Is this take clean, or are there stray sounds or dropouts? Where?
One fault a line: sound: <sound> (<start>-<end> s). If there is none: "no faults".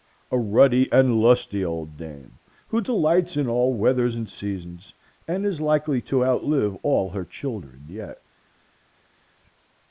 no faults